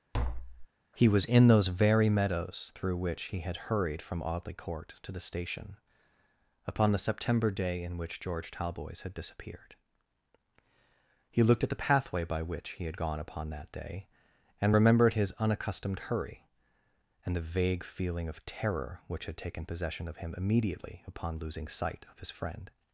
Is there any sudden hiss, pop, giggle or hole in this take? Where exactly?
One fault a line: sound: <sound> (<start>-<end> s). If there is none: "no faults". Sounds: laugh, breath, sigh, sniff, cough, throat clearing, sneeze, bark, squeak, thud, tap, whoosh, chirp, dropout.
sound: tap (0.1-0.7 s)